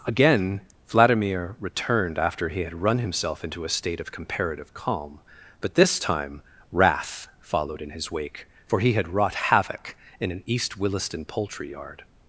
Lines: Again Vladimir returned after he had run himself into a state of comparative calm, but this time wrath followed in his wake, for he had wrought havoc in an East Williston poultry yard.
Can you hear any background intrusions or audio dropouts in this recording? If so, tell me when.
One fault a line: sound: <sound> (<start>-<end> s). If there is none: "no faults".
no faults